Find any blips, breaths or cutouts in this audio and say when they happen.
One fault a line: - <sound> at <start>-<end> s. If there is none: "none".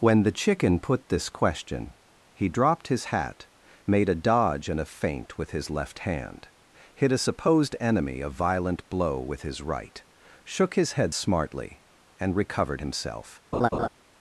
- laugh at 13.5-13.9 s